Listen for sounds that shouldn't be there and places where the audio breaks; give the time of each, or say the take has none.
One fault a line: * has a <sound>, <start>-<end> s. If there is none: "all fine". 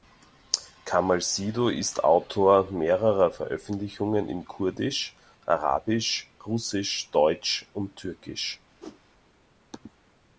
* has a whoosh, 8.8-9.0 s